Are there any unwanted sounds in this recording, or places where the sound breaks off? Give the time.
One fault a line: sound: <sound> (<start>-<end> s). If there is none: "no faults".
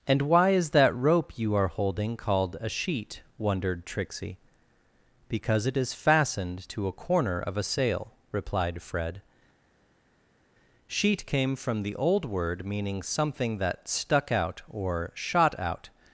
no faults